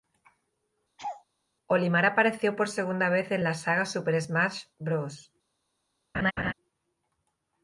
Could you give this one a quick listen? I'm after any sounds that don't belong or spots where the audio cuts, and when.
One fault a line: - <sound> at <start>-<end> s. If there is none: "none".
- laugh at 1.0-1.2 s
- laugh at 6.1-6.5 s